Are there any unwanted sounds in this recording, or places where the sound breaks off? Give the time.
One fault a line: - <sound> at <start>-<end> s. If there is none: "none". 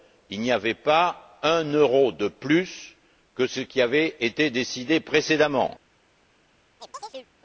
- chirp at 6.8-7.3 s